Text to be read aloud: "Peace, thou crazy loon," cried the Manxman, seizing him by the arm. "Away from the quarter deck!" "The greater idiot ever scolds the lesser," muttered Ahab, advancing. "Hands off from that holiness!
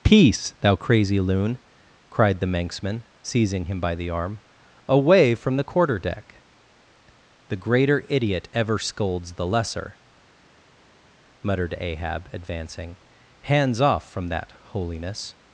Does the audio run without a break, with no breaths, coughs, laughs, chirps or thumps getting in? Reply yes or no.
yes